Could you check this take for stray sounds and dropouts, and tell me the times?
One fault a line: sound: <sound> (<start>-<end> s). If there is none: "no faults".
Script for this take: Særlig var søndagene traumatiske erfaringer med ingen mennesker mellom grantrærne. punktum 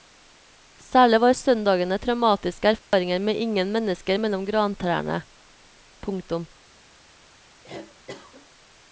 sound: dropout (2.8-2.9 s)
sound: cough (7.6-8.5 s)